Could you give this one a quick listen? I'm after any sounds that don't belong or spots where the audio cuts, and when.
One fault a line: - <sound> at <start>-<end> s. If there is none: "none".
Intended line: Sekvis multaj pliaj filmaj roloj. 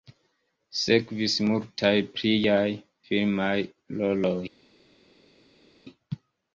none